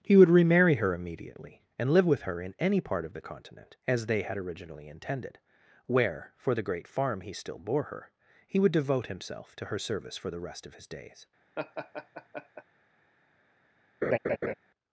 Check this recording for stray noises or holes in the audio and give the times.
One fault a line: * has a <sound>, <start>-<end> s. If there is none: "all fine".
* has a laugh, 11.6-12.6 s
* has a laugh, 14.0-14.5 s